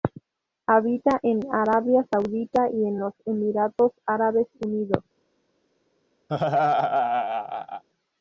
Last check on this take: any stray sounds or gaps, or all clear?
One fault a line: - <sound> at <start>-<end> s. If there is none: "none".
- laugh at 6.3-7.8 s